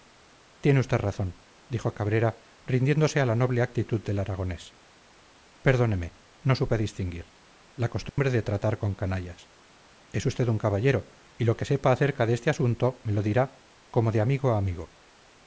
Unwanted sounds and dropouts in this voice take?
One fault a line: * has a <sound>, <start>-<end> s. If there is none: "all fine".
* has a dropout, 8.1-8.2 s